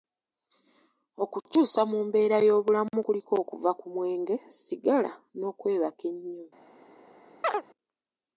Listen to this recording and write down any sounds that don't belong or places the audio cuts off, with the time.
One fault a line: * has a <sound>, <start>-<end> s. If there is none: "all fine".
* has a chirp, 7.4-7.6 s